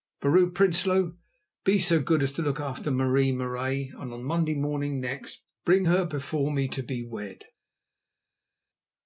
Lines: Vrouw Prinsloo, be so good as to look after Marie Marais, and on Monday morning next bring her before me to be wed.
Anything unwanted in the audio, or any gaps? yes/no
no